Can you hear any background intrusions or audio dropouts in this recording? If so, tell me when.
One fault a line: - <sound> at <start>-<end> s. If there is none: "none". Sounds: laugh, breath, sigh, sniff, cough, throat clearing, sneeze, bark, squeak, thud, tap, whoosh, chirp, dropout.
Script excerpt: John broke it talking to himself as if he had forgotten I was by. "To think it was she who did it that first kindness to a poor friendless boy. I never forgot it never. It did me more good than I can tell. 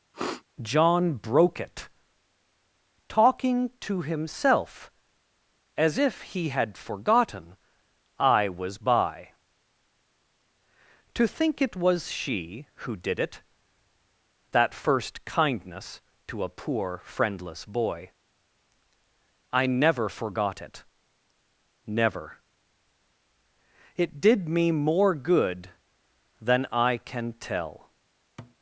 - sniff at 0.1-0.4 s
- thud at 28.4-28.6 s